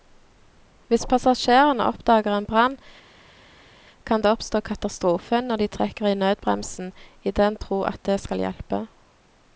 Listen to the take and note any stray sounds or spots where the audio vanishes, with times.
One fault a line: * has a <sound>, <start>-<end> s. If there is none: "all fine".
all fine